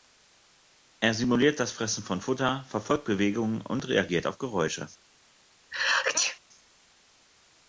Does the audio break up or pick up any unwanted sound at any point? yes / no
yes